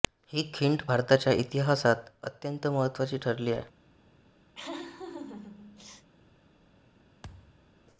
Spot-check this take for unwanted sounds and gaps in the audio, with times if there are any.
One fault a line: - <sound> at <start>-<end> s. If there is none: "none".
- laugh at 4.5-6.1 s
- thud at 7.2-7.7 s